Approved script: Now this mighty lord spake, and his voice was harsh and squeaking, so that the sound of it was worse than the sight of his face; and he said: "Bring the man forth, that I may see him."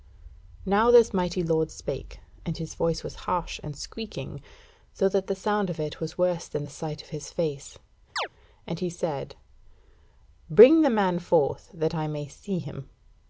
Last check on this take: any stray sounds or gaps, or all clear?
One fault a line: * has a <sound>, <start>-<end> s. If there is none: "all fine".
* has a chirp, 8.2-8.3 s